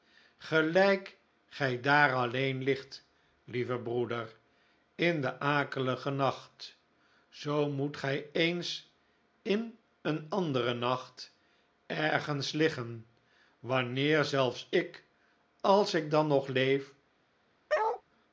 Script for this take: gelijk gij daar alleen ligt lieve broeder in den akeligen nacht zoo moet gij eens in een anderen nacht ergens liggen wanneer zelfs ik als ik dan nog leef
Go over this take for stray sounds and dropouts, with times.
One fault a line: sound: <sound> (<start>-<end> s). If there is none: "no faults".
sound: bark (17.7-18.0 s)